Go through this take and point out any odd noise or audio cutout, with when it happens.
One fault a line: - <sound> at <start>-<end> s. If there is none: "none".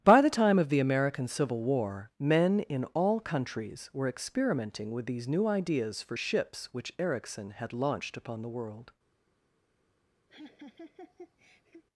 - laugh at 10.3-11.8 s